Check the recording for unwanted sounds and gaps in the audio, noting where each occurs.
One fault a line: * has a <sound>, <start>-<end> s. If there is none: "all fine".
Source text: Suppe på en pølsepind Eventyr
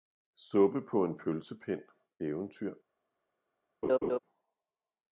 * has a laugh, 3.8-4.2 s